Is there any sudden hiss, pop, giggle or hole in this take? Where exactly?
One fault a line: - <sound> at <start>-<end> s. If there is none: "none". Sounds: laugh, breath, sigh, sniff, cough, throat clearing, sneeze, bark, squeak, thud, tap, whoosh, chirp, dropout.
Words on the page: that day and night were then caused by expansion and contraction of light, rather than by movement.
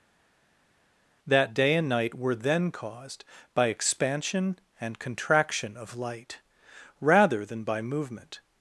none